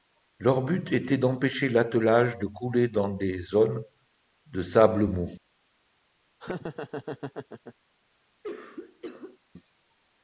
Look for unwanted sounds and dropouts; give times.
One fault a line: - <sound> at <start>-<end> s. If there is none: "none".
- laugh at 6.4-7.7 s
- cough at 8.4-9.4 s